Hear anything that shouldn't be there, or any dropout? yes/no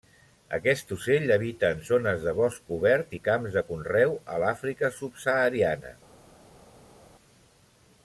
no